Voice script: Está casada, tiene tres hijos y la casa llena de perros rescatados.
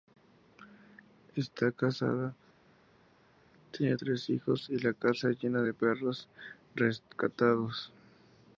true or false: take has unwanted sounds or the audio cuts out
false